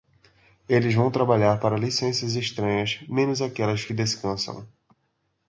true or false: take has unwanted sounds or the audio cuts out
false